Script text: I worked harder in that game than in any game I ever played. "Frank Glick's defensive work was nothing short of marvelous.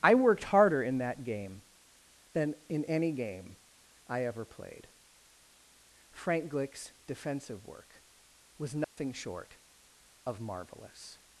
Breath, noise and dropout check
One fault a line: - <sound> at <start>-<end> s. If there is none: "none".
- dropout at 8.8-9.0 s